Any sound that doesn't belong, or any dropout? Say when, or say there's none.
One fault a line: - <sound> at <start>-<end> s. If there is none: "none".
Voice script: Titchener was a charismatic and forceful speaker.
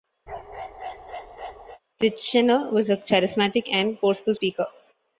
- bark at 0.3-1.8 s